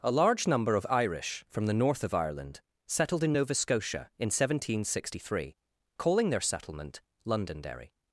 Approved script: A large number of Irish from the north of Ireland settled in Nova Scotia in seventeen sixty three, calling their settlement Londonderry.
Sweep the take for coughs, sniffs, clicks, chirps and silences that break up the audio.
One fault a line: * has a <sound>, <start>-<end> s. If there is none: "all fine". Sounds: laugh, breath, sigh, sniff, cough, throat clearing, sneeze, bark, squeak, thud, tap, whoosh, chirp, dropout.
all fine